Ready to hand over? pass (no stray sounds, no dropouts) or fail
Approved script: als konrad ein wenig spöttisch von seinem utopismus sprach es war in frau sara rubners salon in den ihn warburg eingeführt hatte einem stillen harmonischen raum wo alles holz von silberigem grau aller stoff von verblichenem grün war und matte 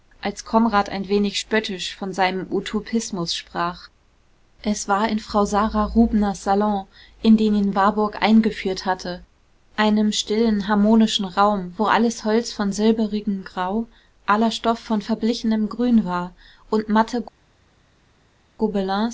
pass